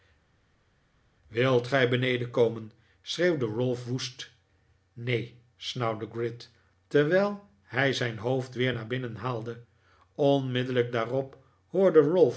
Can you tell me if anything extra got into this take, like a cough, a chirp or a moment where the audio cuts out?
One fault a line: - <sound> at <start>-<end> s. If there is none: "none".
none